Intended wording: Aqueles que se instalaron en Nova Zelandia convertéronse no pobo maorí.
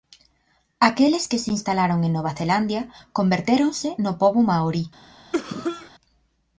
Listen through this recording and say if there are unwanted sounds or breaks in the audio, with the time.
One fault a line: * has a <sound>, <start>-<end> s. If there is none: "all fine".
* has a cough, 5.3-5.9 s